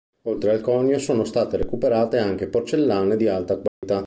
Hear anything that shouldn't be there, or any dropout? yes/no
yes